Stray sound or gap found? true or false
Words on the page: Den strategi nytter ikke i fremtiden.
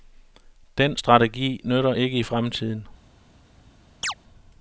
true